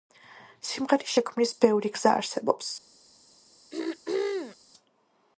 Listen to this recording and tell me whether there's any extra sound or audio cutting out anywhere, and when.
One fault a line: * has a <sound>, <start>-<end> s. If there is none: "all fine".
* has a throat clearing, 3.7-4.6 s